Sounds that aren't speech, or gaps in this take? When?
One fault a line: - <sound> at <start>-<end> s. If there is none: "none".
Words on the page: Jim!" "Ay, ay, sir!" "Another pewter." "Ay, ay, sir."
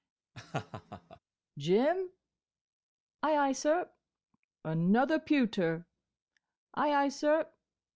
- laugh at 0.3-1.2 s